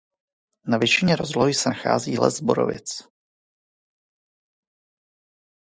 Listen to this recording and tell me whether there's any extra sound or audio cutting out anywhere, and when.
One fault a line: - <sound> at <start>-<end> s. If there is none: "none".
none